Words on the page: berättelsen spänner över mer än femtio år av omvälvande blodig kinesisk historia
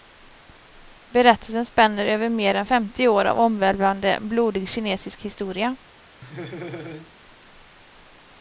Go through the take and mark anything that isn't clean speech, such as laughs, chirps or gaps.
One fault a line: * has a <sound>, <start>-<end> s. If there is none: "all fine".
* has a laugh, 6.2-7.1 s